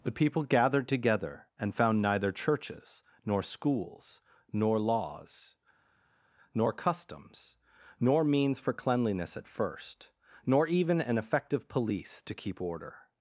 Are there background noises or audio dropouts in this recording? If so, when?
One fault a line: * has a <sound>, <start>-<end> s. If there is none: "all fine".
all fine